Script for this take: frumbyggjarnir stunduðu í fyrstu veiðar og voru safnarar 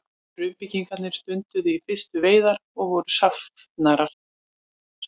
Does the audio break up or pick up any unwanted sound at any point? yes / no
no